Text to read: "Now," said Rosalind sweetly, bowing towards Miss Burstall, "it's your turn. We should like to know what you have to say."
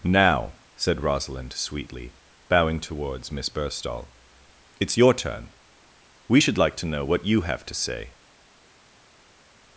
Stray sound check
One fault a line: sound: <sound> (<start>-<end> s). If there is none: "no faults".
no faults